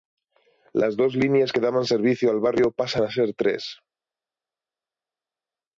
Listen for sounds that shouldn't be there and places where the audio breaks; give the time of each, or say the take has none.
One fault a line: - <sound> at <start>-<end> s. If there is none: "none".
none